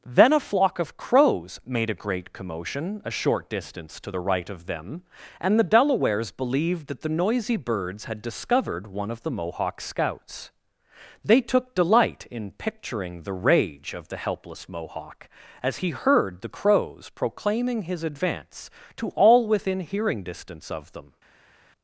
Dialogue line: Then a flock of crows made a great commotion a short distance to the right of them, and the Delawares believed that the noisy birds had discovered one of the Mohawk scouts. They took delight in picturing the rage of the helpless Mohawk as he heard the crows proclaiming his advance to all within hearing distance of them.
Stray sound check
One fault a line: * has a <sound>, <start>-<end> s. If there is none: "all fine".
all fine